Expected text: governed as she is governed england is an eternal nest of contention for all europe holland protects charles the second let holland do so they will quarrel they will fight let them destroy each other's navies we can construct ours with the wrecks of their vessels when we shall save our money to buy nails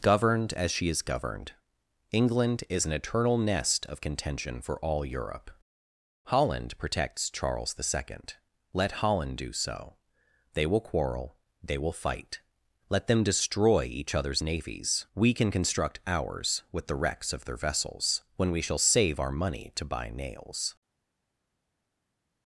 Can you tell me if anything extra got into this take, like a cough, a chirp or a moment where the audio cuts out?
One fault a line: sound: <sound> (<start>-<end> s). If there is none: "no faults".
no faults